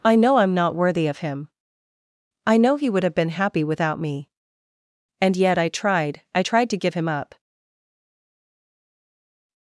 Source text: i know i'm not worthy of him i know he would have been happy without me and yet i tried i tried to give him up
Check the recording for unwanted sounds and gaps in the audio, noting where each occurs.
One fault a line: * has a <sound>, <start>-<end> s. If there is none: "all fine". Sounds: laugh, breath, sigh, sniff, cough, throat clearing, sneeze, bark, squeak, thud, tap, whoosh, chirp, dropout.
all fine